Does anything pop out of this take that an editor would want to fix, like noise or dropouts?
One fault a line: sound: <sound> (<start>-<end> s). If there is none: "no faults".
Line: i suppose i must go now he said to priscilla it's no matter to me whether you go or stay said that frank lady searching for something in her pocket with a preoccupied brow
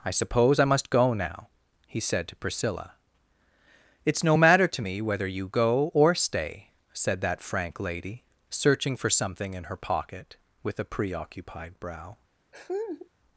sound: laugh (12.5-13.1 s)